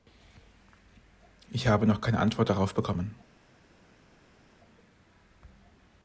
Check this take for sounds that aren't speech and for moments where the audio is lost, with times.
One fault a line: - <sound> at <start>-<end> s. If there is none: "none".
none